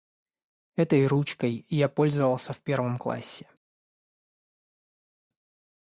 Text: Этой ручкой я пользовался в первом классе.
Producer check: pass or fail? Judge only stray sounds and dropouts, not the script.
pass